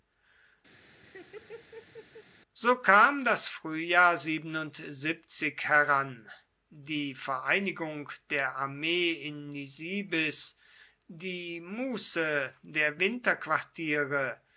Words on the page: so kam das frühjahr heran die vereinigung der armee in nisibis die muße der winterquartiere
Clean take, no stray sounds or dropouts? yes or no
no